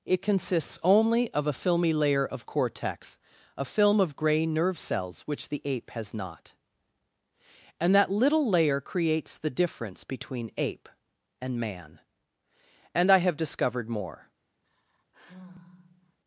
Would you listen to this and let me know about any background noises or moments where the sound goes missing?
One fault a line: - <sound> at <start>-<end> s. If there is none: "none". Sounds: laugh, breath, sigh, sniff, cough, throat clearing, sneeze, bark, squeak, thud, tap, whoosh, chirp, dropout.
- sigh at 14.6-16.2 s